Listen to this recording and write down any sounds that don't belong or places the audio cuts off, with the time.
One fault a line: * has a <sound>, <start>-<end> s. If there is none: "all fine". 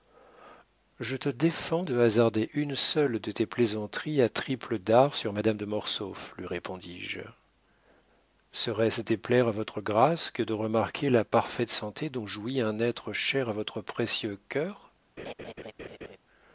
* has a laugh, 15.2-16.2 s